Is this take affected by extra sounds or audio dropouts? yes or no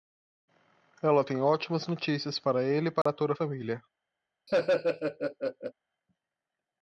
yes